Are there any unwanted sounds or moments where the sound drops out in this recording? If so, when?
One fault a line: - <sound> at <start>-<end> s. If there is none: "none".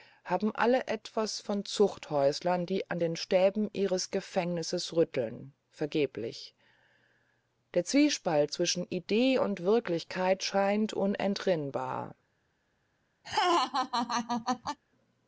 - laugh at 13.2-14.8 s